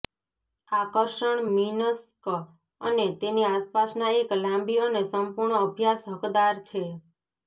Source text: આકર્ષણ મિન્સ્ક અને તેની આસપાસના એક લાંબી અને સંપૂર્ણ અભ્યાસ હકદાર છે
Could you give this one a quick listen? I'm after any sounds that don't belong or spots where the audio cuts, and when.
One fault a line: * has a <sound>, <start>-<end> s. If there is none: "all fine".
all fine